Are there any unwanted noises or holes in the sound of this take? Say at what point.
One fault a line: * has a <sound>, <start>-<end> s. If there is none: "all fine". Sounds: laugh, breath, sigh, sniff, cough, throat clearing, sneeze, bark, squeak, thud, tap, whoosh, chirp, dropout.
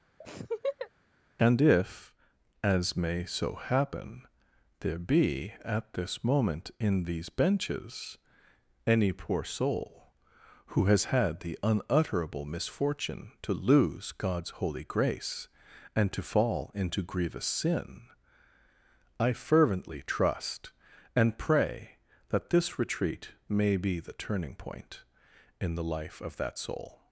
* has a laugh, 0.2-0.9 s